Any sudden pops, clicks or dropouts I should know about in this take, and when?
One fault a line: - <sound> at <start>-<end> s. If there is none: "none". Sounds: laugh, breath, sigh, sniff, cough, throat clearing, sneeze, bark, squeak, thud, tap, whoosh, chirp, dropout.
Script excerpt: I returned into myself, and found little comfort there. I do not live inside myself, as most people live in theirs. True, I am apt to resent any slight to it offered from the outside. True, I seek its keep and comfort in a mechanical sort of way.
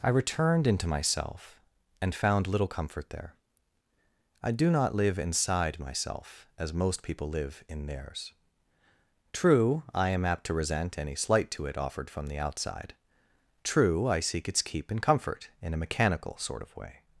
none